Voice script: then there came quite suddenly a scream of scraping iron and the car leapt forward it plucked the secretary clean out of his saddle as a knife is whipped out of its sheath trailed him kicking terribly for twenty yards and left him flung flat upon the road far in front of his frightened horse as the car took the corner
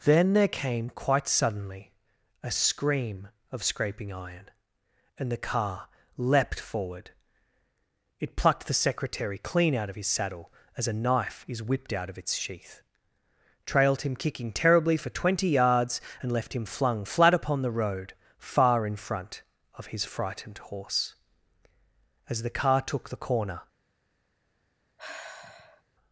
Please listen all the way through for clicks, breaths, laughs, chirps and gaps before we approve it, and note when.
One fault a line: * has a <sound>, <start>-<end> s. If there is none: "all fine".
* has a sigh, 25.0-25.8 s